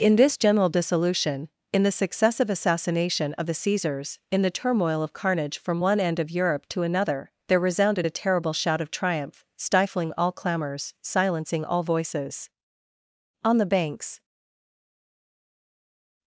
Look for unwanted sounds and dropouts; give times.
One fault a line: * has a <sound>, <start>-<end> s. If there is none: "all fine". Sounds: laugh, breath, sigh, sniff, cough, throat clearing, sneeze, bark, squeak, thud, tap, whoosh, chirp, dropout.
all fine